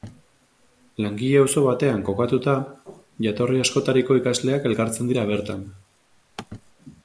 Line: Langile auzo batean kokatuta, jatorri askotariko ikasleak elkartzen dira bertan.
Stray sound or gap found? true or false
false